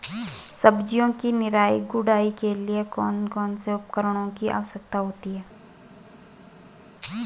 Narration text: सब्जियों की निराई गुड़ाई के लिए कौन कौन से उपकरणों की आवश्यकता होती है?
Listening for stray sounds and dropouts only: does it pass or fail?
pass